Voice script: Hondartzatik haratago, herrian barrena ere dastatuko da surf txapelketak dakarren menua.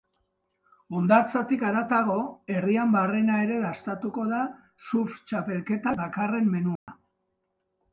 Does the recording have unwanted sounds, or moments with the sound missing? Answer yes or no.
yes